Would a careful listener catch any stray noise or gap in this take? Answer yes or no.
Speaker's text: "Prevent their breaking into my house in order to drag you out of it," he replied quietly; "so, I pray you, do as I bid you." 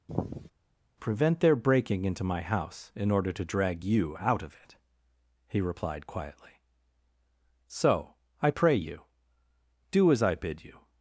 yes